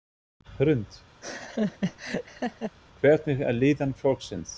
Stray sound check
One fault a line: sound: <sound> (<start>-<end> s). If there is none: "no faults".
sound: laugh (1.2-2.7 s)